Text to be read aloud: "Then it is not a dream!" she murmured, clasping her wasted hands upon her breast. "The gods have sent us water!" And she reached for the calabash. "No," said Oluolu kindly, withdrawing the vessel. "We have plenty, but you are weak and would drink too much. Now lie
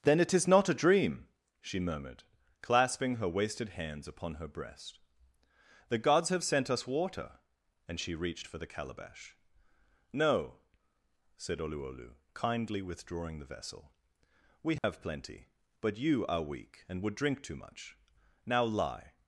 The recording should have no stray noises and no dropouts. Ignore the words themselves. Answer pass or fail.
fail